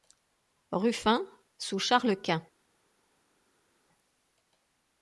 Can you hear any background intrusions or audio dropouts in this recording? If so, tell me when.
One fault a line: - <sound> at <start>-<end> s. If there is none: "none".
none